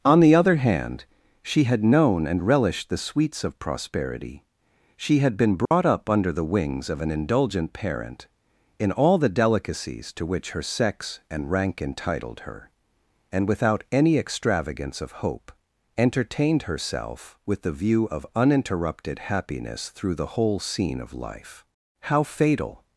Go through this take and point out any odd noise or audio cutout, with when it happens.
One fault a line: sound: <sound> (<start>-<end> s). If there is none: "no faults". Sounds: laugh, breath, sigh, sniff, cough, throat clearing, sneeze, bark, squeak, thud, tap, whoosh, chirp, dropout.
sound: dropout (5.7-5.7 s)